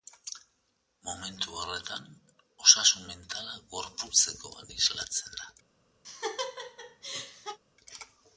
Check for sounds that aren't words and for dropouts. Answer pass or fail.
fail